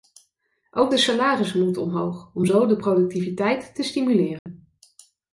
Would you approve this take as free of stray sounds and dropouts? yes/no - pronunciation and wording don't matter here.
no